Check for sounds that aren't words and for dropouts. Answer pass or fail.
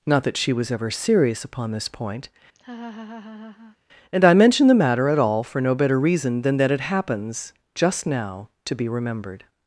fail